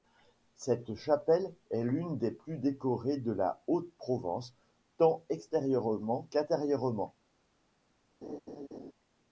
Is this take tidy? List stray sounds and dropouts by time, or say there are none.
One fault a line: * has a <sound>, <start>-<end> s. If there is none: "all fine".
* has a laugh, 8.2-8.9 s